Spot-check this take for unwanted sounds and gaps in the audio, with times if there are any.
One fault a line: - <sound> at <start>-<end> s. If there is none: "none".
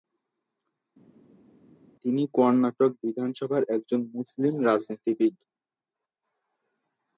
none